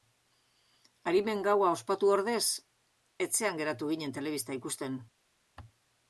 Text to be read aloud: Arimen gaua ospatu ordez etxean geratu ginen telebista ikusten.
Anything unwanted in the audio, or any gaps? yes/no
no